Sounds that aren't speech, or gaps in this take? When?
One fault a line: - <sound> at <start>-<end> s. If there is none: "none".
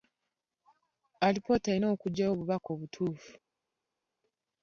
none